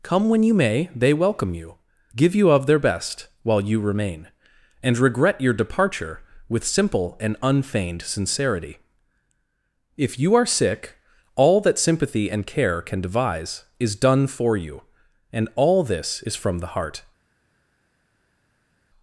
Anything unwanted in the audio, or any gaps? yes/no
no